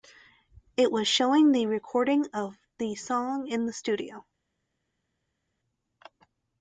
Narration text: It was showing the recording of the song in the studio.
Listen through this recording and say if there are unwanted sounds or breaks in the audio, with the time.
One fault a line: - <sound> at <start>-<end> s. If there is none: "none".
none